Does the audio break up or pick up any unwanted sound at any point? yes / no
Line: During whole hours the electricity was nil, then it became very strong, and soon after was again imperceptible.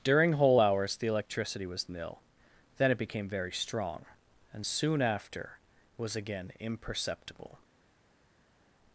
no